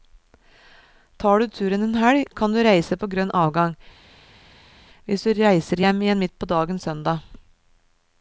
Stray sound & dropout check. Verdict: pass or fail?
pass